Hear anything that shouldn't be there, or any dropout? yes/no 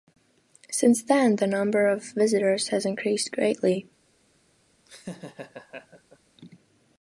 yes